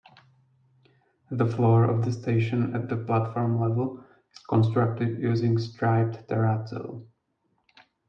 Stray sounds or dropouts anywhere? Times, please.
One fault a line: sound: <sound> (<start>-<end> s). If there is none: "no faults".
no faults